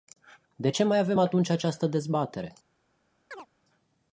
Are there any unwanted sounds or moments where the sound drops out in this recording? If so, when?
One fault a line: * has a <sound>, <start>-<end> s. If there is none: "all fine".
* has a chirp, 3.3-3.5 s